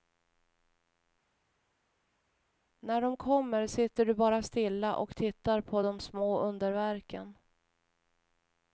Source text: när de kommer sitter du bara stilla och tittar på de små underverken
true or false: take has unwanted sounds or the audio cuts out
false